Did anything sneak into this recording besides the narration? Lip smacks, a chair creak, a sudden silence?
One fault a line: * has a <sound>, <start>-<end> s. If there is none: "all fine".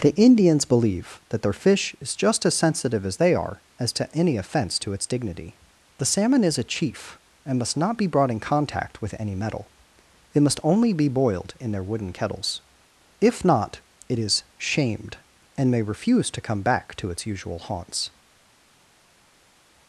all fine